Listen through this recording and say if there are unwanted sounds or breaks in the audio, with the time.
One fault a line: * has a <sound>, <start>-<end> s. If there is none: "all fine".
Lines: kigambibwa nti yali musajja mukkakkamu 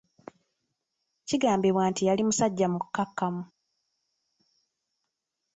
all fine